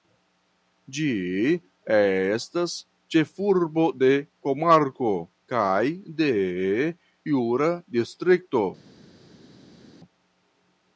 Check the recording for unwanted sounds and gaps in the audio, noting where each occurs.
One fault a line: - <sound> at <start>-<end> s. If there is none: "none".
none